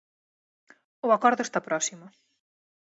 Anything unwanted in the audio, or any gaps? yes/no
no